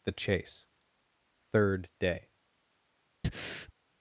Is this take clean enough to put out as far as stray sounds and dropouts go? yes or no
no